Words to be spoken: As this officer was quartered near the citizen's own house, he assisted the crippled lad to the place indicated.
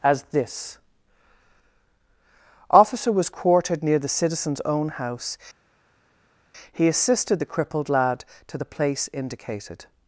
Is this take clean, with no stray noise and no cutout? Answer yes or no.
yes